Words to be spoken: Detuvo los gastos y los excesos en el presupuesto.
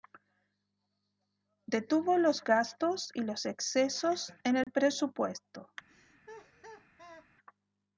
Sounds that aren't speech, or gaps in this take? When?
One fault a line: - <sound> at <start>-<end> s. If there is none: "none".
- dropout at 4.6-4.7 s
- laugh at 5.9-7.3 s